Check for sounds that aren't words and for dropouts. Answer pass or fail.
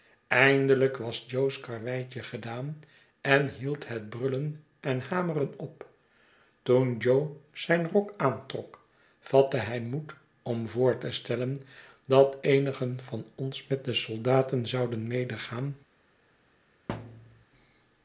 fail